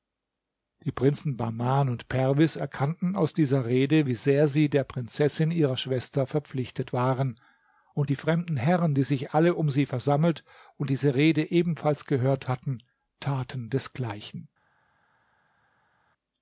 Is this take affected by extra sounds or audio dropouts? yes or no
no